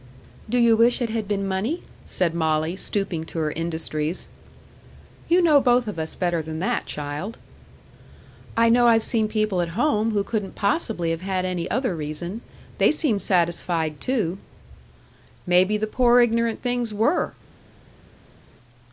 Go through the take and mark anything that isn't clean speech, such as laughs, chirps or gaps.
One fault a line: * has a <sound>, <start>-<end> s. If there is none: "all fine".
all fine